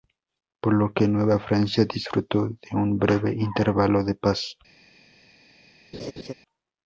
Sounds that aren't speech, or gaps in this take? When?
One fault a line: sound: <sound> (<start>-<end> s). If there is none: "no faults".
sound: laugh (5.9-6.3 s)